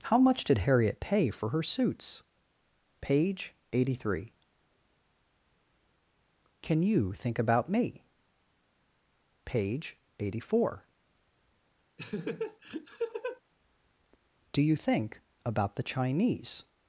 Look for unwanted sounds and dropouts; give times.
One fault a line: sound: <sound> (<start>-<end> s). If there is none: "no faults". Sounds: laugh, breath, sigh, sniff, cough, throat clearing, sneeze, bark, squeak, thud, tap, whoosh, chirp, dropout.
sound: laugh (12.0-13.4 s)